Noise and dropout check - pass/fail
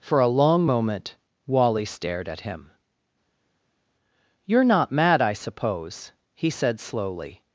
pass